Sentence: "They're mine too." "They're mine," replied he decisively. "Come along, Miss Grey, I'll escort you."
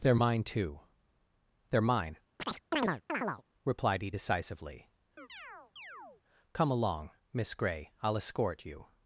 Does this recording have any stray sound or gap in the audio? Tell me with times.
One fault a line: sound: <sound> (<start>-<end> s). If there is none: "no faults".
sound: chirp (2.4-3.4 s)
sound: chirp (5.2-6.2 s)